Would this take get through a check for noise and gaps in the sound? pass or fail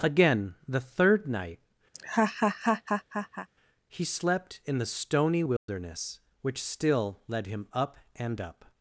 fail